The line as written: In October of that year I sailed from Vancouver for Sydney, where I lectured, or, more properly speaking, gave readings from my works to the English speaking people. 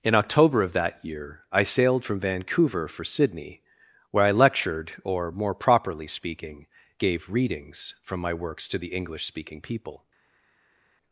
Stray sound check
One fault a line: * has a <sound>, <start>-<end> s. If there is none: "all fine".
all fine